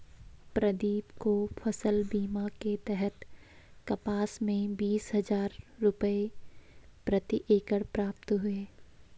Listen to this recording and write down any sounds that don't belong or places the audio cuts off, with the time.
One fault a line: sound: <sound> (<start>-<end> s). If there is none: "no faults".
no faults